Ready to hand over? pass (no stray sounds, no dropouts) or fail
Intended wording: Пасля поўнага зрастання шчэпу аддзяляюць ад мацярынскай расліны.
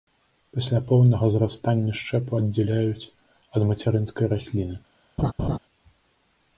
fail